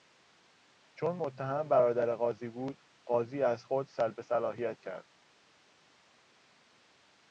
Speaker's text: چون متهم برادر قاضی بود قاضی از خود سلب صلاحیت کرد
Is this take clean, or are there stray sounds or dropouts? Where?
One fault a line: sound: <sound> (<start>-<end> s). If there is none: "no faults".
no faults